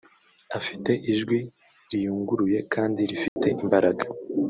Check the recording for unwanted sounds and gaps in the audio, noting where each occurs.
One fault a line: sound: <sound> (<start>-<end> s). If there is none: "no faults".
sound: dropout (3.3-3.4 s)